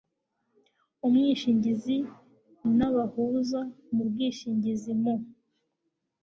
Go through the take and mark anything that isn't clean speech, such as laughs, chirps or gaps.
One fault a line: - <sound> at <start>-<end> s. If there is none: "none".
none